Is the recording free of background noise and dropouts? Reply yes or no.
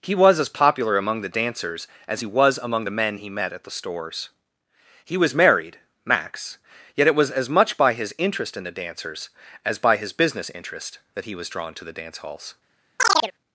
no